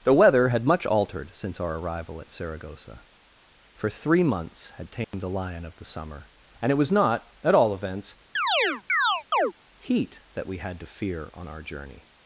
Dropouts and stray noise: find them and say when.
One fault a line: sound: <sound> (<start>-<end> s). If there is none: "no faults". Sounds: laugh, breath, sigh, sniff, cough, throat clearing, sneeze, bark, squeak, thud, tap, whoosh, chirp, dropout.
sound: dropout (5.0-5.1 s)
sound: chirp (8.4-9.5 s)